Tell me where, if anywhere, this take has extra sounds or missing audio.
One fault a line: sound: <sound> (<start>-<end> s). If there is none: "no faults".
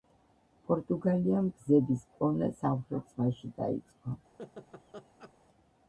sound: laugh (4.4-5.3 s)